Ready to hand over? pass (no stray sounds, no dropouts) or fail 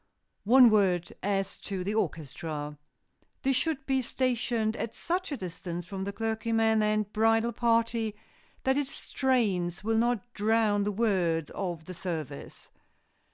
pass